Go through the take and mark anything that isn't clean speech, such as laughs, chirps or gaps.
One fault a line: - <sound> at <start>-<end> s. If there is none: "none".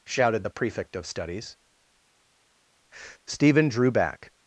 none